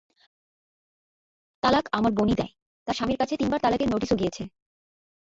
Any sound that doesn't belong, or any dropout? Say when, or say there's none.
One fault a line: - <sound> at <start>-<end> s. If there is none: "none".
none